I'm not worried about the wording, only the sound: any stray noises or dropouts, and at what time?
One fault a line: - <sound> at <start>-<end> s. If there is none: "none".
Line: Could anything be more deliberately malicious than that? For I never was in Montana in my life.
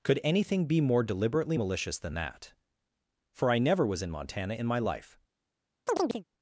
- chirp at 5.9-6.2 s